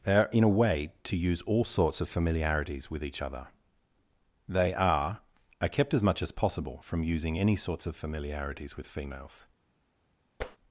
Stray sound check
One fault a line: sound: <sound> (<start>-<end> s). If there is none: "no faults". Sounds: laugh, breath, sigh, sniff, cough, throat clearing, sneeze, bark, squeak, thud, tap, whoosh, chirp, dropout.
sound: tap (10.4-10.6 s)